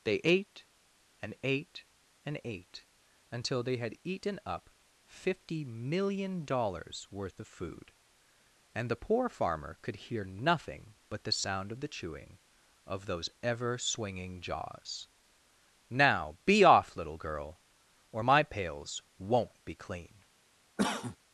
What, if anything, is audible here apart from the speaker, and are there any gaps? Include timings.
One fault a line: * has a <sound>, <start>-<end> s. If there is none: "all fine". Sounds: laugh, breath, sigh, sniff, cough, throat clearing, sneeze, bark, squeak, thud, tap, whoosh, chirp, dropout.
* has a cough, 20.8-21.2 s